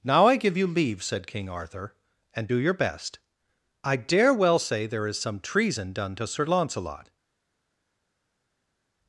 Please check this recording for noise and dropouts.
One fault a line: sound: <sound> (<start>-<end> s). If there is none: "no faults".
no faults